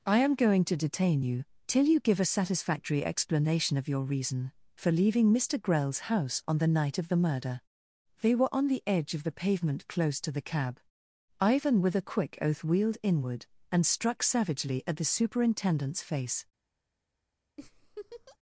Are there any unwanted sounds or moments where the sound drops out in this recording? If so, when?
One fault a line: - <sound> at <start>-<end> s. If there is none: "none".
- laugh at 17.6-18.4 s